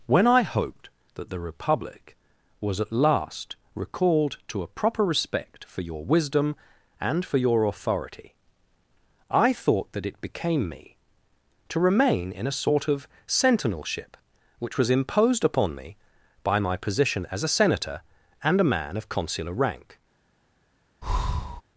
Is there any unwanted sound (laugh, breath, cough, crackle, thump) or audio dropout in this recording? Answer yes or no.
yes